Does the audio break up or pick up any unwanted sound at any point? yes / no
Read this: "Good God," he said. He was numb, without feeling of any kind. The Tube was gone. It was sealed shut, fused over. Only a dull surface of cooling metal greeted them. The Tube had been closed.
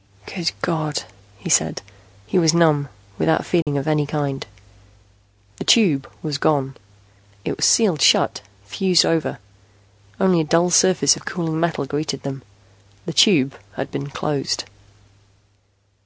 yes